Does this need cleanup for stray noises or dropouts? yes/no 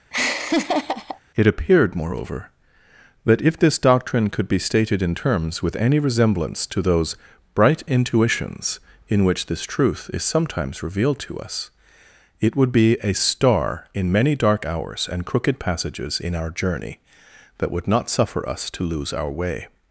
yes